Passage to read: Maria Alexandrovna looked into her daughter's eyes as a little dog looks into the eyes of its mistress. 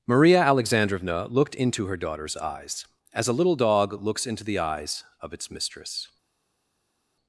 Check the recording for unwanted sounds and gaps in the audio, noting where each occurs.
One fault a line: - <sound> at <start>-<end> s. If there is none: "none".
none